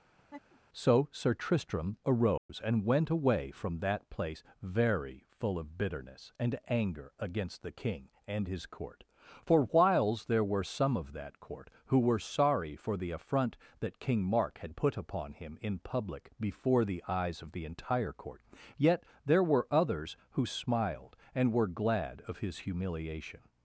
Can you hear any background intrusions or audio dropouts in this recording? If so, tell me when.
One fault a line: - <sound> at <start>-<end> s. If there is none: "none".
- laugh at 0.2-0.6 s
- dropout at 2.4-2.5 s